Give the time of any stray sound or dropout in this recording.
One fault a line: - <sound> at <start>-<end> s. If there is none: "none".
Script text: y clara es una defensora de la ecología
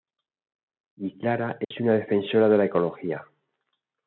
- dropout at 1.6-1.7 s